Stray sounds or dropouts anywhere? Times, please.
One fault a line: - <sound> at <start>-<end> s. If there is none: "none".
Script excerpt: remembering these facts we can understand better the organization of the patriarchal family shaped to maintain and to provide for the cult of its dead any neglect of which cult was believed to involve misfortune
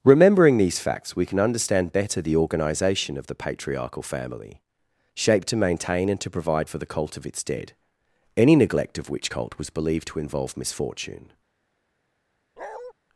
- bark at 12.6-12.9 s